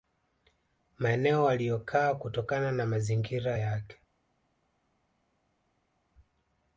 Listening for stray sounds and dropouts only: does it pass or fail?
pass